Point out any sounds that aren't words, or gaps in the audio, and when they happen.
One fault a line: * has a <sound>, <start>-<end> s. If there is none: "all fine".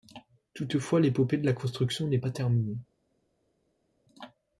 all fine